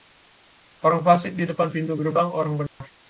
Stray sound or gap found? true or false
true